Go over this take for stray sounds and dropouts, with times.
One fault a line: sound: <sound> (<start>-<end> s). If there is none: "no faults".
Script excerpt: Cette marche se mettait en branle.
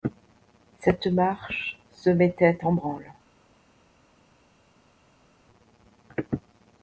no faults